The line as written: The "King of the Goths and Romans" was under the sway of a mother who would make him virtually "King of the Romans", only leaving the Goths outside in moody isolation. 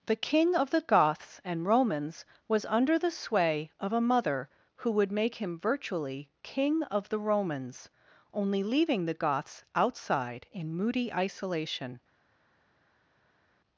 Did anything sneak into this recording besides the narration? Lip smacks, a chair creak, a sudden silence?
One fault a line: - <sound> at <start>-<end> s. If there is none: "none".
none